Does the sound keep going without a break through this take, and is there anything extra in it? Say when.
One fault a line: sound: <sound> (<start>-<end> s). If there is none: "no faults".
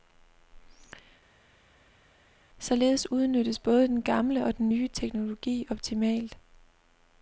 no faults